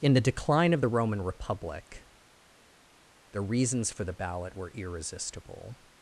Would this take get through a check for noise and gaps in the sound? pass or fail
pass